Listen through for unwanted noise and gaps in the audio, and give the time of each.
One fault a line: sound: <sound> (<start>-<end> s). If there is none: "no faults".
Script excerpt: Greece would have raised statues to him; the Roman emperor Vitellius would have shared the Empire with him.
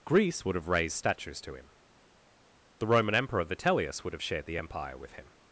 no faults